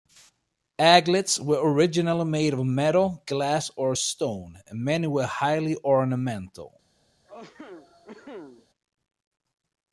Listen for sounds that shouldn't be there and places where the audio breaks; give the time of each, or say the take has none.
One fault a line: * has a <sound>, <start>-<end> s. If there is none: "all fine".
* has a cough, 7.2-8.7 s